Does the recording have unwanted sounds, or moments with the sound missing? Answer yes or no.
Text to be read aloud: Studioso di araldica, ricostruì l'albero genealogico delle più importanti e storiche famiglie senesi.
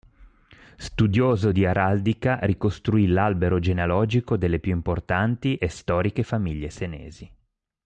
no